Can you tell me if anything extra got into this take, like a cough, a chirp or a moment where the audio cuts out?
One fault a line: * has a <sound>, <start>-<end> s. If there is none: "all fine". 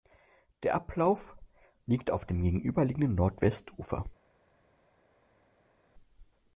all fine